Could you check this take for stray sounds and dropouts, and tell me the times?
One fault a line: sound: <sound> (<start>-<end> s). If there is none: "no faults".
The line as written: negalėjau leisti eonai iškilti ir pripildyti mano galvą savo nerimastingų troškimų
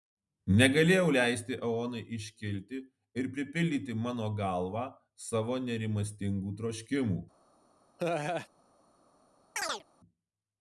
sound: laugh (8.0-8.5 s)
sound: chirp (9.6-9.8 s)